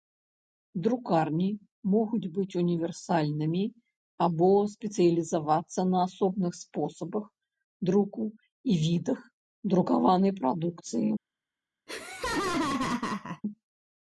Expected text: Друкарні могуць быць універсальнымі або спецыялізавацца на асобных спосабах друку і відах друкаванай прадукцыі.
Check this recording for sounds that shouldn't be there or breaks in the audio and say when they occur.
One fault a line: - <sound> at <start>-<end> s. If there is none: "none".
- laugh at 11.9-13.4 s